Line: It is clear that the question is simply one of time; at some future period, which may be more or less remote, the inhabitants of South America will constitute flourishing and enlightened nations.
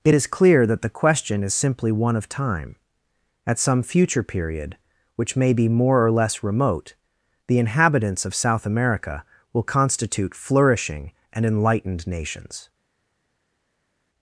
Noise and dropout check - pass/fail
pass